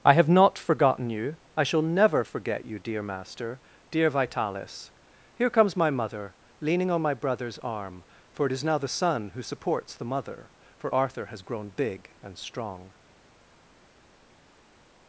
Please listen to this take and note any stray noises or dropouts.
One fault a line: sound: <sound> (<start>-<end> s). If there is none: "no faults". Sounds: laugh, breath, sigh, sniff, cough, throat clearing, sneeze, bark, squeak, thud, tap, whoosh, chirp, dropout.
no faults